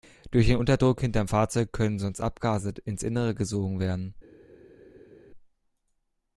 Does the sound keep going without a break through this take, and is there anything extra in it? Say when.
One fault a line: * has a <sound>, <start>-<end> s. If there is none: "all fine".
all fine